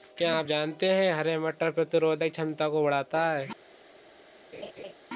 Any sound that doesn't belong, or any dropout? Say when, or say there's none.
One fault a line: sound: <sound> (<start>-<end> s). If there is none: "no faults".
sound: laugh (4.5-4.9 s)